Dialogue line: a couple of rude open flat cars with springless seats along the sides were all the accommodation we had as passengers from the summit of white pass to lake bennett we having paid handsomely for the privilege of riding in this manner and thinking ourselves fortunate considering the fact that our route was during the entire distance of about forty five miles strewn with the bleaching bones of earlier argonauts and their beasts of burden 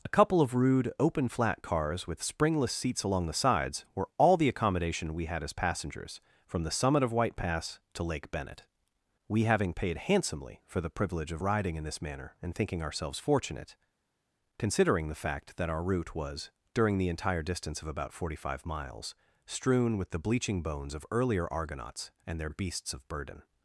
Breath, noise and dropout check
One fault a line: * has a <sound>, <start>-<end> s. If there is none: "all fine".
all fine